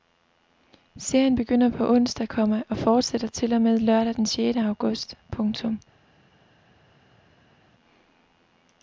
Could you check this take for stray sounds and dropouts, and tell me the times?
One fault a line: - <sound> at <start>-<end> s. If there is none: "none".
none